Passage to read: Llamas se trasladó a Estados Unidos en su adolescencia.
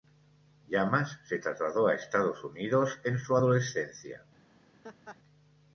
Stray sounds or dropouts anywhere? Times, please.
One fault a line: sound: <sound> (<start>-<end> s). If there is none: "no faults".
sound: laugh (4.8-5.2 s)